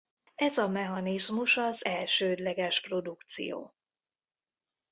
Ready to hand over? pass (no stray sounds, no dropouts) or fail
pass